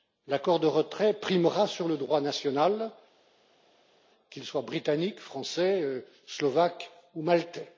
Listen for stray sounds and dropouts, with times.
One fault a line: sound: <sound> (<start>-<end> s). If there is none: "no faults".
no faults